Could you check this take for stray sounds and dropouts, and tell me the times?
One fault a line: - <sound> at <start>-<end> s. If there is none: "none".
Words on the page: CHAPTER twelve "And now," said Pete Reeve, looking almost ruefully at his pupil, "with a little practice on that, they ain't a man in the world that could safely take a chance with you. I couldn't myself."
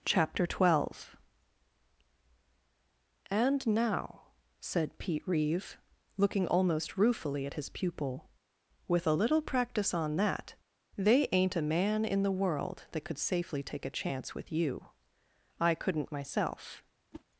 - whoosh at 17.1-17.2 s